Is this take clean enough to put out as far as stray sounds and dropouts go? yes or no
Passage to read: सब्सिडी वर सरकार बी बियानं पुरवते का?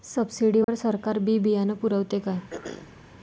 no